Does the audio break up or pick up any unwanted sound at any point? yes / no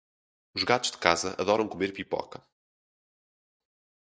no